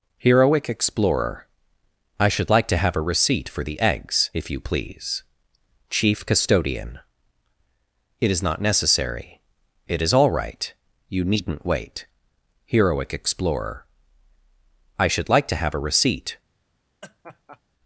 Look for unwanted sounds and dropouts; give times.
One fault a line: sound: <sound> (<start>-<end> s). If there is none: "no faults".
sound: laugh (17.0-17.6 s)